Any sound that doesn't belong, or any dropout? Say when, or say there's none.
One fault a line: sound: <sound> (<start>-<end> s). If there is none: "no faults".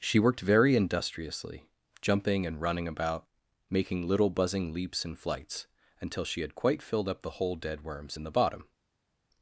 no faults